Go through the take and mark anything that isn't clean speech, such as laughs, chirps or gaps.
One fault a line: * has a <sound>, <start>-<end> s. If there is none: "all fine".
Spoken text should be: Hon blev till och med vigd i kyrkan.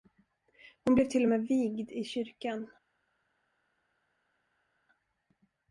all fine